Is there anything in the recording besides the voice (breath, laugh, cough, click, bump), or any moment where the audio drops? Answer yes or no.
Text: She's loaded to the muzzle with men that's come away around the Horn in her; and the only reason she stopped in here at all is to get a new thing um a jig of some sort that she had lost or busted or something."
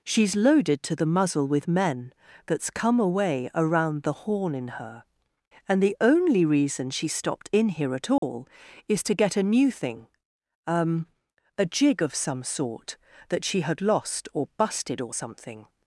yes